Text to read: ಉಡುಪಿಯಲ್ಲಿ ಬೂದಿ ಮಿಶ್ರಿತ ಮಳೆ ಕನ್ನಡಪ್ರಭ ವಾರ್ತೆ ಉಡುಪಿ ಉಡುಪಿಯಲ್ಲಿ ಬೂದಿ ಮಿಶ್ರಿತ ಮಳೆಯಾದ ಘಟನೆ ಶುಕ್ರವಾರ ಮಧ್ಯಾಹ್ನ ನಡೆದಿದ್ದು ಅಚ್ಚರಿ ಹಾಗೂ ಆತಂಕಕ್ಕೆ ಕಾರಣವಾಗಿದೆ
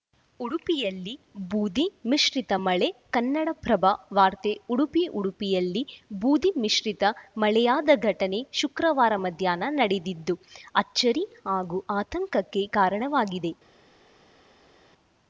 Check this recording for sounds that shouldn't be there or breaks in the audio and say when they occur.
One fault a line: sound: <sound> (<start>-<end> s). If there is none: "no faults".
no faults